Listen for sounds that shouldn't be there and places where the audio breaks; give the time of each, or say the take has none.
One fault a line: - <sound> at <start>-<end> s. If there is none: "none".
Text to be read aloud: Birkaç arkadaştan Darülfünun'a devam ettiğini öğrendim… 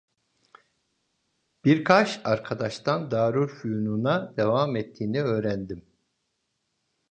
none